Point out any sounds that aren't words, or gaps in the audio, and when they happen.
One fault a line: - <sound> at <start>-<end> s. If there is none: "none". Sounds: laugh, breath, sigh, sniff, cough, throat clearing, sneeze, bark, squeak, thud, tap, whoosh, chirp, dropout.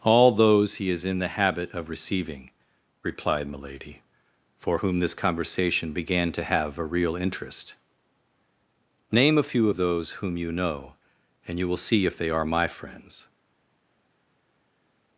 none